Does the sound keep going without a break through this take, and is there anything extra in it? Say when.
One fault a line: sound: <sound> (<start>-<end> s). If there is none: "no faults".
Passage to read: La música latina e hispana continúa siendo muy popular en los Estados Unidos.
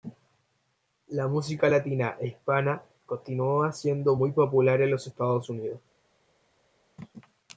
no faults